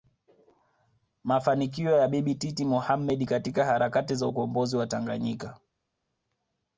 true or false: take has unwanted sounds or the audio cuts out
false